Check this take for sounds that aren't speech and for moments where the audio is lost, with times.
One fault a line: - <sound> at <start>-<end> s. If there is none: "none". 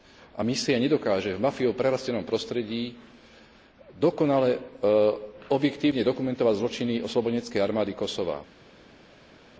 none